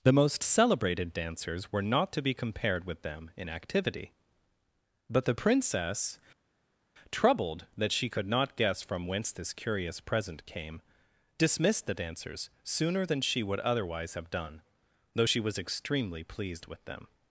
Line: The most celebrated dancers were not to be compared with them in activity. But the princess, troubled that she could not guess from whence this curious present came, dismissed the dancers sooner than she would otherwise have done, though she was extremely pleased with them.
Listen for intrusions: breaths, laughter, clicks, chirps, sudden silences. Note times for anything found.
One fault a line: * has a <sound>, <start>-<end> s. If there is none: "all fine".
all fine